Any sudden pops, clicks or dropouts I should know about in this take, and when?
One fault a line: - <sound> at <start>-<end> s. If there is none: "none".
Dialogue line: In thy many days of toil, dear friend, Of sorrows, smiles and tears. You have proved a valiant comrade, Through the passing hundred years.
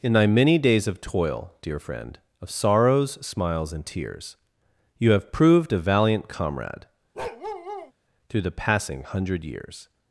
- bark at 7.2-7.9 s